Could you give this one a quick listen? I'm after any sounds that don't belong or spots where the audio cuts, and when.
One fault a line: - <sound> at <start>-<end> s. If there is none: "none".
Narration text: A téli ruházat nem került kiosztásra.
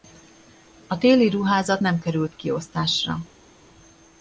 none